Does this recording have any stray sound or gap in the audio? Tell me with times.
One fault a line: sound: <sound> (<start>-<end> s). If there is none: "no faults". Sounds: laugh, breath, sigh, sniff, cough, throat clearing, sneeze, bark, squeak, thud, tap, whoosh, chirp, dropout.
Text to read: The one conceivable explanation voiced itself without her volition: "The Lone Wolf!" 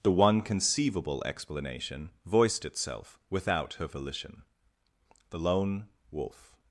no faults